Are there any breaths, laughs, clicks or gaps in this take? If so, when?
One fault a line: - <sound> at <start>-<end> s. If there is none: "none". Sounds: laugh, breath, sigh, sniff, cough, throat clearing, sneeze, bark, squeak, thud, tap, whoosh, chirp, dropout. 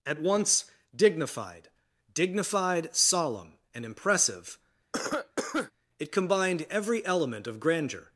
- cough at 4.9-5.7 s